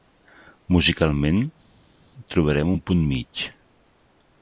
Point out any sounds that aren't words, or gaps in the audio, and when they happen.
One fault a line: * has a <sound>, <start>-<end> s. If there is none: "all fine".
all fine